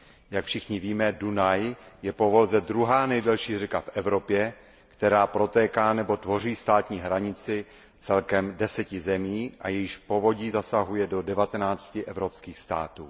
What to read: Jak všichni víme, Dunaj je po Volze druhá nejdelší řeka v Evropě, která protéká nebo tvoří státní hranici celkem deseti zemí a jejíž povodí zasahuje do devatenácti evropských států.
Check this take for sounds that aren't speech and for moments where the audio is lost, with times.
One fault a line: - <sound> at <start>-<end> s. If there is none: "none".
none